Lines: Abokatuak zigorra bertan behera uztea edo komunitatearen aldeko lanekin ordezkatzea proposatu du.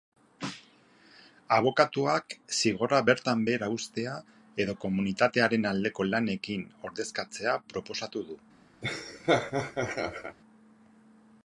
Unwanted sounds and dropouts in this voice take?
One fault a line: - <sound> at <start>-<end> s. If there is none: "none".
- laugh at 8.8-10.4 s